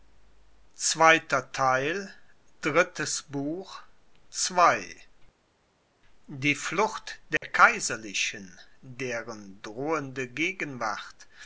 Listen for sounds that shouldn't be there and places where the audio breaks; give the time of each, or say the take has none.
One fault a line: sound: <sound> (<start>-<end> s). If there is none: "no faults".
sound: dropout (7.4-7.4 s)